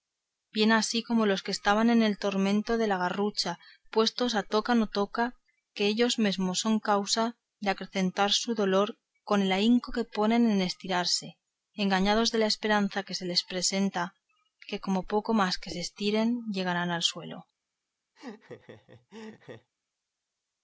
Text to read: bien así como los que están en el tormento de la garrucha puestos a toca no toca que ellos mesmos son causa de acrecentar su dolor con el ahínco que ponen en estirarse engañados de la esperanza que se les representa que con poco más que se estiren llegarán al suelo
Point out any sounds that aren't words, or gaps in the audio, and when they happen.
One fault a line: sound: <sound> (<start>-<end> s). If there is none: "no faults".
sound: laugh (18.2-19.7 s)